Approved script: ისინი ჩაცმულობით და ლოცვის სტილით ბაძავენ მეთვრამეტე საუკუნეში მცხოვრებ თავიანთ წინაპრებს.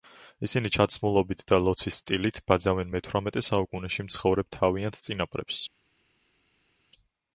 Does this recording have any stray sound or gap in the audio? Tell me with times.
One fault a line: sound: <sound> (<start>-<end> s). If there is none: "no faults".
no faults